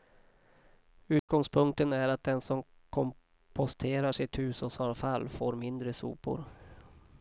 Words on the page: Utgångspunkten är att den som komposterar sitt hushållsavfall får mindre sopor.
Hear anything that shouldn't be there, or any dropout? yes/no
yes